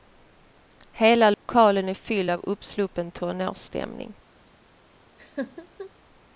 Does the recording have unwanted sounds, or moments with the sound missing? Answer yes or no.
yes